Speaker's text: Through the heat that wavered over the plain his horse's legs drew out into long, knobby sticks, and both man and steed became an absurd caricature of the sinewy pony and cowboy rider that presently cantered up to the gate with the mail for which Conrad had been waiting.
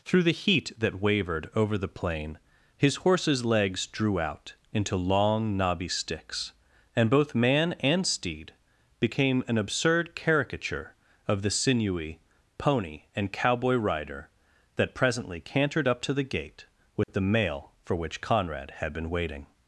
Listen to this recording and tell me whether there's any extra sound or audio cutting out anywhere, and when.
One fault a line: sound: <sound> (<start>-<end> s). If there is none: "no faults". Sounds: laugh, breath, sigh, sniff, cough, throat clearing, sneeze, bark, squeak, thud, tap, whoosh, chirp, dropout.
sound: dropout (17.0-17.1 s)